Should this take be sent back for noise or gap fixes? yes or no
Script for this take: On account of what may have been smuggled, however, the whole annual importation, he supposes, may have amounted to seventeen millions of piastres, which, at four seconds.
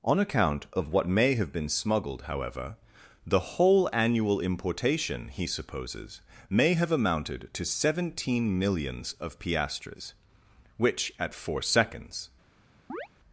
yes